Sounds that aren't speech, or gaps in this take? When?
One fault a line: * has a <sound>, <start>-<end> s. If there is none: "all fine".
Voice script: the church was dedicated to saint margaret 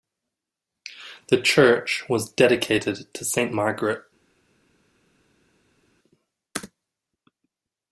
all fine